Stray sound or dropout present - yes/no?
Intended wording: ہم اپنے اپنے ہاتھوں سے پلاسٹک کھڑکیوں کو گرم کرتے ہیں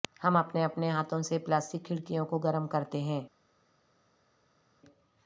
no